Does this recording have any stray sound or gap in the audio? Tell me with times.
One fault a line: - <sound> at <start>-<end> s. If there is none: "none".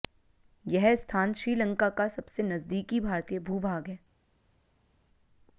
none